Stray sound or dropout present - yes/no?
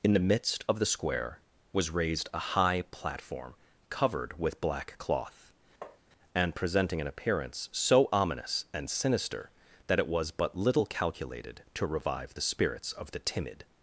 yes